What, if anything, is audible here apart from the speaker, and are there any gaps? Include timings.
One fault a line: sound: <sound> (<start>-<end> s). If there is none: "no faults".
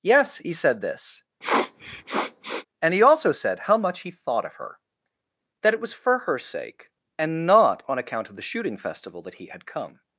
sound: sniff (1.4-2.7 s)